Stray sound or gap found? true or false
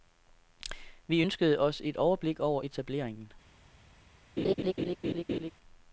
true